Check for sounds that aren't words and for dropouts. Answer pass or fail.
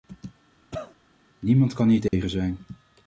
fail